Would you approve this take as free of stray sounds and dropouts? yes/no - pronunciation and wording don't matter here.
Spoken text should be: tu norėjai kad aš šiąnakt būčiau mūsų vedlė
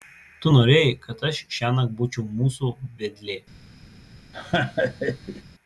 no